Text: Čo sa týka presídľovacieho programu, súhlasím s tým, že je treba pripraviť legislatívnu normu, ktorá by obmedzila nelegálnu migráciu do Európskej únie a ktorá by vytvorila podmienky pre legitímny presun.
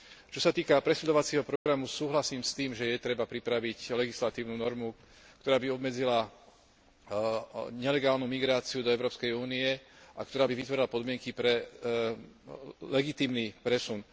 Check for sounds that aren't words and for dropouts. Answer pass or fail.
fail